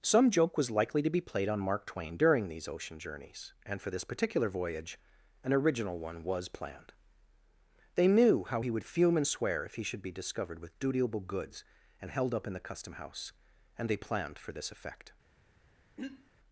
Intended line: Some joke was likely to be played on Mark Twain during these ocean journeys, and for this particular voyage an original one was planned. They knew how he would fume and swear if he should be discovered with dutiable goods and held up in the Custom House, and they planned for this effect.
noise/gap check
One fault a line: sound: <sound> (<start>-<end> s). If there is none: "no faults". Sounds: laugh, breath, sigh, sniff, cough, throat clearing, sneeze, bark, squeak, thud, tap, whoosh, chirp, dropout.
sound: throat clearing (16.0-16.3 s)